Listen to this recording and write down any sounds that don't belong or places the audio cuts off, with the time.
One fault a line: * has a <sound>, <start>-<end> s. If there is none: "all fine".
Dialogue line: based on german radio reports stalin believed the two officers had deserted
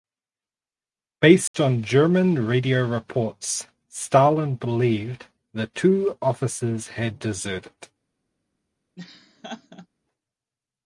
* has a dropout, 1.5-1.5 s
* has a laugh, 9.0-9.9 s